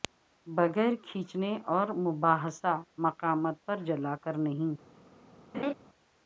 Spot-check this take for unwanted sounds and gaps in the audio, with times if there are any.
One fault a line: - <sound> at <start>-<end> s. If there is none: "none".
- laugh at 5.5-5.7 s